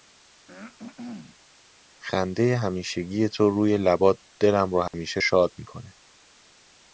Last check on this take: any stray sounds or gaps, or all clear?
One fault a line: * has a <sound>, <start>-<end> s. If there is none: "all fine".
* has a throat clearing, 0.5-1.4 s
* has a dropout, 4.9-4.9 s